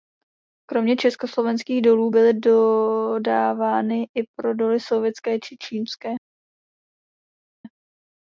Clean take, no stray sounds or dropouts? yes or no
yes